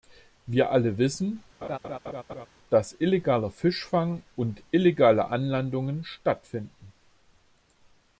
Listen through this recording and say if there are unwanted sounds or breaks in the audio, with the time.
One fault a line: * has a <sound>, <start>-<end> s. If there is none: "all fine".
* has a laugh, 1.6-2.5 s